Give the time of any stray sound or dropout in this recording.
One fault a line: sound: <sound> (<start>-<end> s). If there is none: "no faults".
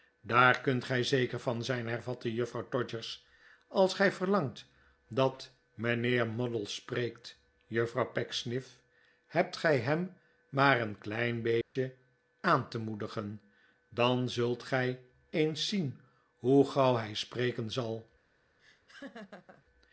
sound: dropout (11.6-11.8 s)
sound: laugh (18.6-19.6 s)